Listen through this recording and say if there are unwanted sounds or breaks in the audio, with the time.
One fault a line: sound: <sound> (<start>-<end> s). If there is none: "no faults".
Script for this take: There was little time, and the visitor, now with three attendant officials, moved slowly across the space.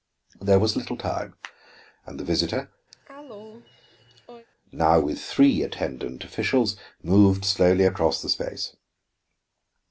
sound: cough (2.9-4.5 s)